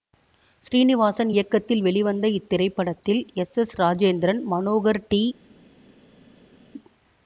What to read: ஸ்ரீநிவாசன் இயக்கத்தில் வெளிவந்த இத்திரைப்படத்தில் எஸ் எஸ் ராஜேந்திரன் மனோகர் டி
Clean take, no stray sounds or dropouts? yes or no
yes